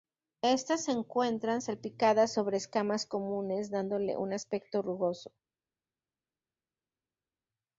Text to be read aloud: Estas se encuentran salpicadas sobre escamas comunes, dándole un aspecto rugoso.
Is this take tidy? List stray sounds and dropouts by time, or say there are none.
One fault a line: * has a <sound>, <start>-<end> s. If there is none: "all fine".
all fine